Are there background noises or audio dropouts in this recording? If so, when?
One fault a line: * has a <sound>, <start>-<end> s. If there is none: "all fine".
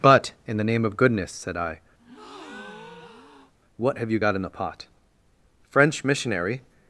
* has a breath, 2.0-3.5 s